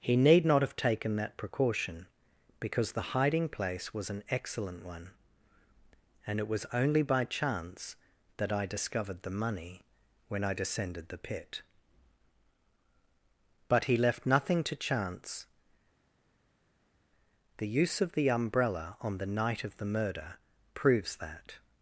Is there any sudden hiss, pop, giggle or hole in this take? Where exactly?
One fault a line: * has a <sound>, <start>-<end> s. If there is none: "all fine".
all fine